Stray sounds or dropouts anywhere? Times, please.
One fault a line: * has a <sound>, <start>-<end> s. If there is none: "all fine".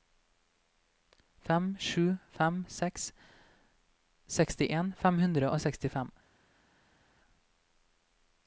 all fine